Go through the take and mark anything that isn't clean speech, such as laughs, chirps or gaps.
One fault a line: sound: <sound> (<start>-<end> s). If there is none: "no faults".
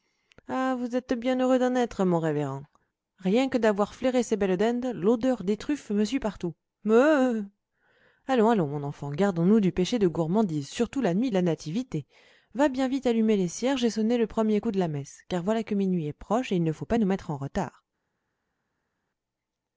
no faults